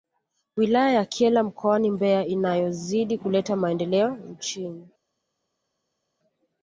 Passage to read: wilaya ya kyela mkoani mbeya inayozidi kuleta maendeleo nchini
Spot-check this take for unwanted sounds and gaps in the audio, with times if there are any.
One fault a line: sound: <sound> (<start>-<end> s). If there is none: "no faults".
no faults